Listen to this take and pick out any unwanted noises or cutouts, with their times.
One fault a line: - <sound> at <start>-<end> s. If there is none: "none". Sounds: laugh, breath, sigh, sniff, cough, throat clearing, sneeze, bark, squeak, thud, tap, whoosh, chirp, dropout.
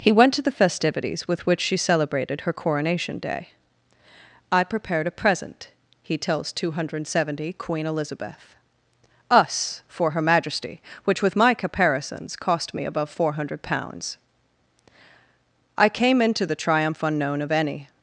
none